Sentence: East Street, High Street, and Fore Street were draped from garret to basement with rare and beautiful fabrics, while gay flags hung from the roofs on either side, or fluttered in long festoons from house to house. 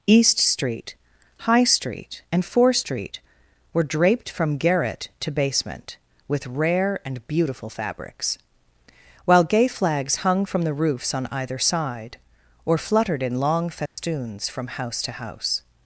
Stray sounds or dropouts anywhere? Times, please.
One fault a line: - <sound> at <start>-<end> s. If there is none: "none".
- dropout at 13.9-14.0 s